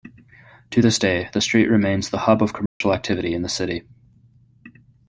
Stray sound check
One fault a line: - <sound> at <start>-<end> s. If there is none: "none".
- dropout at 2.7-2.8 s